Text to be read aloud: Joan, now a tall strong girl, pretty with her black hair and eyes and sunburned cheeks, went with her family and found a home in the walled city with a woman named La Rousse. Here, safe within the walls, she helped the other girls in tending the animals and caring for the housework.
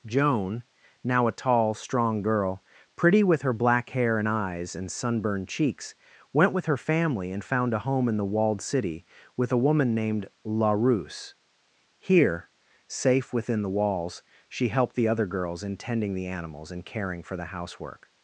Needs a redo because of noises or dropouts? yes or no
no